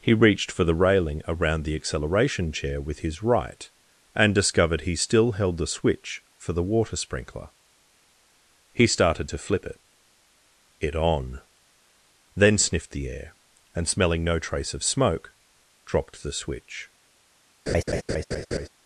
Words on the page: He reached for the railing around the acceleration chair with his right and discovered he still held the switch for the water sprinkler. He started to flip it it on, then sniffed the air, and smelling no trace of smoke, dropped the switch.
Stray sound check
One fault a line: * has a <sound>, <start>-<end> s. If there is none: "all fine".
* has a laugh, 17.7-18.7 s